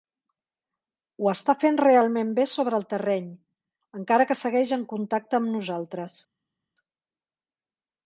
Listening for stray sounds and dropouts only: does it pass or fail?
pass